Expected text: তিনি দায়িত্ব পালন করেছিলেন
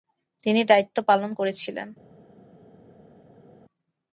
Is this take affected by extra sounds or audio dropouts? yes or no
no